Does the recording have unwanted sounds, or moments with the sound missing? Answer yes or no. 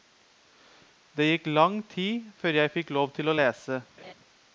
yes